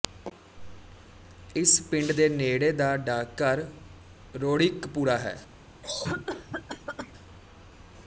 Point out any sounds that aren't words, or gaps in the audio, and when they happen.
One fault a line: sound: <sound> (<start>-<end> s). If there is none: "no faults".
sound: cough (5.8-7.1 s)